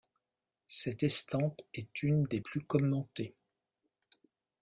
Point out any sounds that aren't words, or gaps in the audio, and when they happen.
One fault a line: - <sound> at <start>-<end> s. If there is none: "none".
none